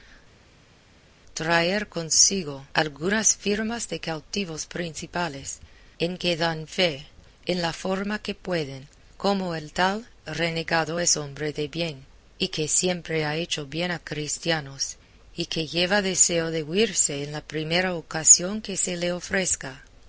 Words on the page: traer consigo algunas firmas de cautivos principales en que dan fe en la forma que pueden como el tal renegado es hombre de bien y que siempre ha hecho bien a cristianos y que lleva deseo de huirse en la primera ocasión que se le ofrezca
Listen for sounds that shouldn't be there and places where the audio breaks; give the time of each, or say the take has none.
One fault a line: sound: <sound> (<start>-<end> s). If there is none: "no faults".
no faults